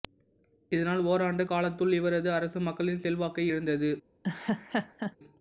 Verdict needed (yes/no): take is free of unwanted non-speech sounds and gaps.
no